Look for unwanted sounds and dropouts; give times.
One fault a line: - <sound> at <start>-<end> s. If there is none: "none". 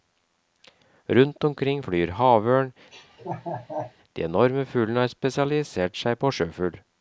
- laugh at 2.9-3.9 s